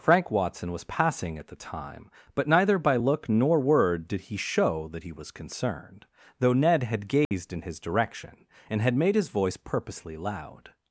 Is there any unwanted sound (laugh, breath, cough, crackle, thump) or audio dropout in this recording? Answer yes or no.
yes